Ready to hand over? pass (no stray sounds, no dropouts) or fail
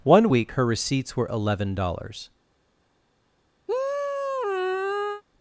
fail